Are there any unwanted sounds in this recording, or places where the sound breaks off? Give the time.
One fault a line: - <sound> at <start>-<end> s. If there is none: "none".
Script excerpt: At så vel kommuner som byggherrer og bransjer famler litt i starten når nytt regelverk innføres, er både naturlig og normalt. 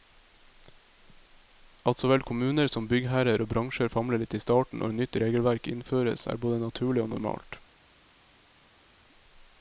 none